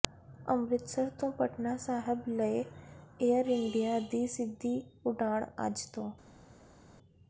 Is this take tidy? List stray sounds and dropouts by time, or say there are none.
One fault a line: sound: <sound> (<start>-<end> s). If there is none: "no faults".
no faults